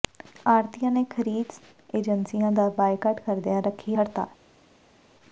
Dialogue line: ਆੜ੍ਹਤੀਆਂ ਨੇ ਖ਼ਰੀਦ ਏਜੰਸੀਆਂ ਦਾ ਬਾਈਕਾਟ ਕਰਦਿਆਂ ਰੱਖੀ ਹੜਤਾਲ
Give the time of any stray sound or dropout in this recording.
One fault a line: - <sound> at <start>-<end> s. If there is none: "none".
none